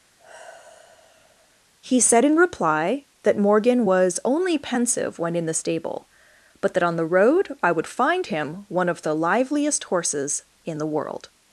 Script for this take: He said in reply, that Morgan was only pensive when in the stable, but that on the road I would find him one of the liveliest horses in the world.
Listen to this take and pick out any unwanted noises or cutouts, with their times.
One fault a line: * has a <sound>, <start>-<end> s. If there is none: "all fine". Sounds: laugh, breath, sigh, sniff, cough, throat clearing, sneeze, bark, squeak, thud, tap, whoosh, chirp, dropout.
* has a sigh, 0.2-1.6 s